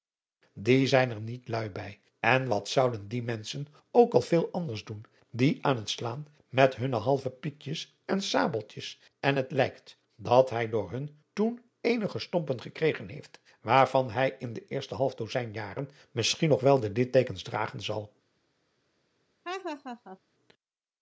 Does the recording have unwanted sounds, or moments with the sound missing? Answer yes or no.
yes